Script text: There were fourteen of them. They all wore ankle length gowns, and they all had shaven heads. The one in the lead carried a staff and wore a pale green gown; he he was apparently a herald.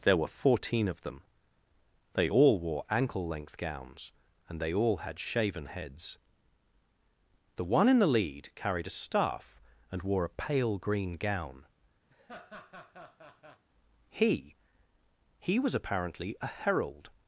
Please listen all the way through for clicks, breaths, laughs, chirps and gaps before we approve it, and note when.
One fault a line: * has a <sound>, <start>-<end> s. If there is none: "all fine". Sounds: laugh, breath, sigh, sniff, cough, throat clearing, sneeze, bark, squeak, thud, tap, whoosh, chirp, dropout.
* has a laugh, 12.1-13.6 s